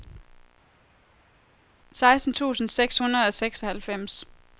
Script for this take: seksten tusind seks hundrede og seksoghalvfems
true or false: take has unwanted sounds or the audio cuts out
false